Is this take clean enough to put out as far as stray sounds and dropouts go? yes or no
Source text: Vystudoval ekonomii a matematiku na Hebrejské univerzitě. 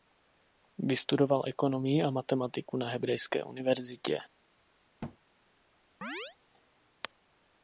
no